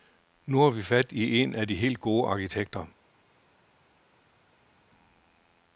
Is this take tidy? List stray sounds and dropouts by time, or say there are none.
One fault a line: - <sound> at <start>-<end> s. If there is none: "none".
none